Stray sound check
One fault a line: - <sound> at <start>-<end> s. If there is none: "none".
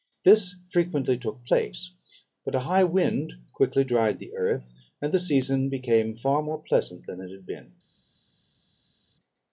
none